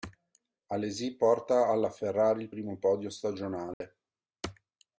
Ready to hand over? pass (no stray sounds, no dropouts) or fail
fail